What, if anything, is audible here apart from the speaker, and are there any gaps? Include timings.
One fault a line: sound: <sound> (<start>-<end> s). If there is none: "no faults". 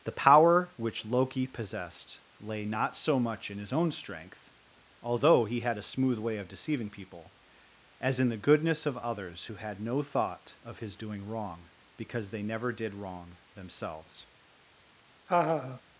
sound: laugh (15.3-15.8 s)